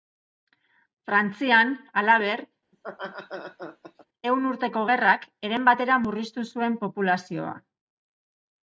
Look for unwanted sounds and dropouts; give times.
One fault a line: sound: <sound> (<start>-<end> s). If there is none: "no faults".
sound: laugh (2.7-4.1 s)